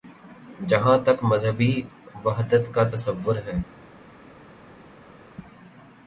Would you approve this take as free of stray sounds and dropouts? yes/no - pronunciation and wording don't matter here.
yes